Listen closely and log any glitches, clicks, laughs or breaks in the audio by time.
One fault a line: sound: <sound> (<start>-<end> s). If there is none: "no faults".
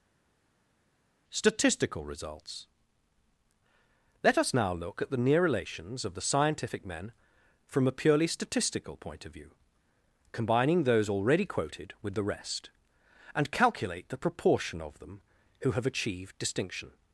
no faults